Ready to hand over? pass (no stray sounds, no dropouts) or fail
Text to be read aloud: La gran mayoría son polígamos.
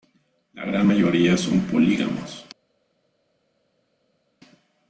pass